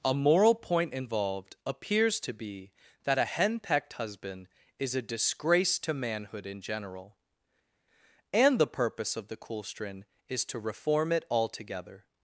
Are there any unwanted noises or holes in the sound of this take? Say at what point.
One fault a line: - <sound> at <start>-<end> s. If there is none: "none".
none